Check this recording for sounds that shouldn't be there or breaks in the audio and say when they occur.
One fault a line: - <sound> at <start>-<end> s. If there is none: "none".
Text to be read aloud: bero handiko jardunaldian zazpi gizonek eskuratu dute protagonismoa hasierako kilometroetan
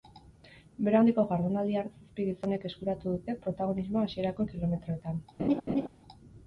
- laugh at 5.4-5.9 s